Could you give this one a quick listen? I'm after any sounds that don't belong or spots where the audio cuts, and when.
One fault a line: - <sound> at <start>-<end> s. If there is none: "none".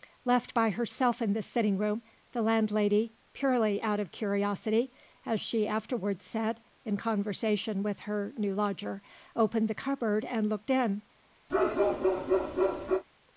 - bark at 11.5-13.0 s